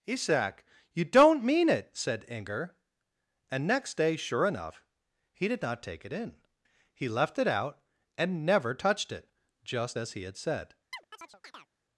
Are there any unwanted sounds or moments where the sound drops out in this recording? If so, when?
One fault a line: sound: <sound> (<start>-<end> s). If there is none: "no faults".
sound: chirp (10.9-11.7 s)